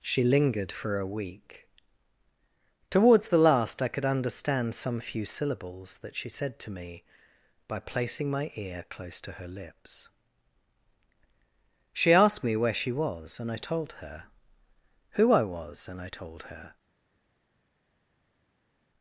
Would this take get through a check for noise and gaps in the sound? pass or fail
pass